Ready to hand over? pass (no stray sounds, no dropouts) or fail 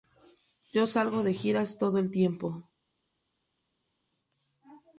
pass